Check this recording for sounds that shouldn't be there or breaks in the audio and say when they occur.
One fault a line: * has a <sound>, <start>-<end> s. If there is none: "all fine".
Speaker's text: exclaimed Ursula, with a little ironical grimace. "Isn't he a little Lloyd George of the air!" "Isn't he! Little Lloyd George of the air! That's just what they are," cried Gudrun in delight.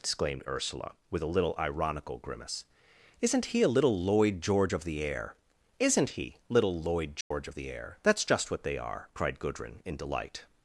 * has a dropout, 7.2-7.3 s